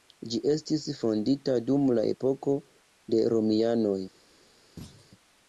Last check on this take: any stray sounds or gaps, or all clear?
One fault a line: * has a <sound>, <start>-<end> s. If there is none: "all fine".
* has a thud, 4.8-5.1 s